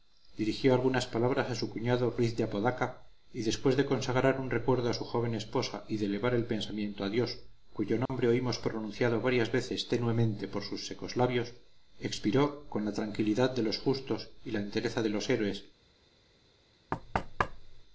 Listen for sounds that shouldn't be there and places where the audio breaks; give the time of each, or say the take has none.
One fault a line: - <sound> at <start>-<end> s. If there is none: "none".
- dropout at 8.1-8.1 s
- thud at 16.9-17.8 s